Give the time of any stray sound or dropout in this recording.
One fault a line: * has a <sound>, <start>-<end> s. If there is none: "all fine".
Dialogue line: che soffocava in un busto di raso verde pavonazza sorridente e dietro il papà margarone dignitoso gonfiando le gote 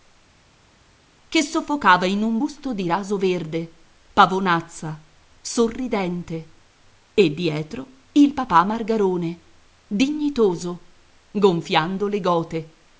all fine